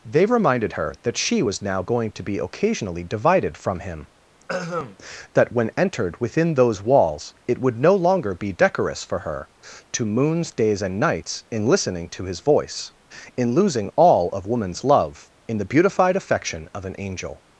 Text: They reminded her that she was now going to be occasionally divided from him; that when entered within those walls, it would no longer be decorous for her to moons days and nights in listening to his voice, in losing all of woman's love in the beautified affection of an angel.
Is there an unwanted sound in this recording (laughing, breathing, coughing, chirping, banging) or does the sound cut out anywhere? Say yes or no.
yes